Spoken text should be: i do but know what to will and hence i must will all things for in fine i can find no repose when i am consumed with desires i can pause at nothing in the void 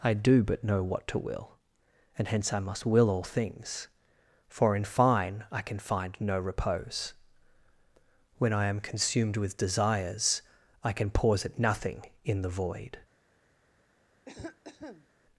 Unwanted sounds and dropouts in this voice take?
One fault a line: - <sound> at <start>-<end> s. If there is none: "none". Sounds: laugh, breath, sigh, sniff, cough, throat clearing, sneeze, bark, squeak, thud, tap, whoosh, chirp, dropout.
- cough at 14.2-15.1 s